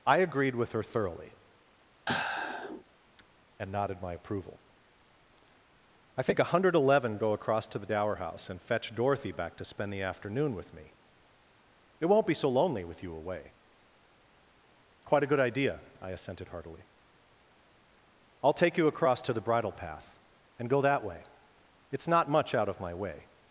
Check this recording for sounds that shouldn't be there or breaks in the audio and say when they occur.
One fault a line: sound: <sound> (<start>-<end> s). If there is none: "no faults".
sound: sigh (2.1-2.8 s)